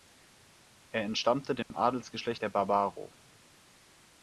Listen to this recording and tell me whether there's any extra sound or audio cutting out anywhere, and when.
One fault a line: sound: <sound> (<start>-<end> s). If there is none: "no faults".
sound: dropout (1.6-1.7 s)